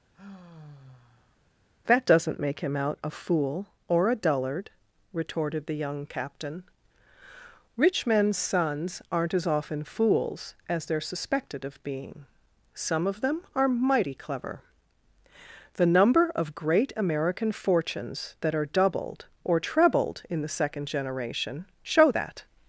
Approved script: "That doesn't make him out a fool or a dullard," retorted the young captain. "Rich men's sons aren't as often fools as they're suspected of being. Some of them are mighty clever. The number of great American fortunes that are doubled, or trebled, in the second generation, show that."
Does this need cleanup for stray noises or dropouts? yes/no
yes